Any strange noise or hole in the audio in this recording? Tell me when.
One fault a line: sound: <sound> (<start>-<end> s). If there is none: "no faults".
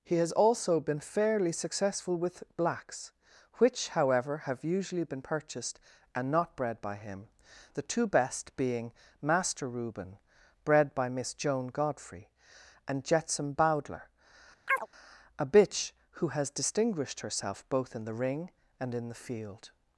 sound: chirp (14.7-14.9 s)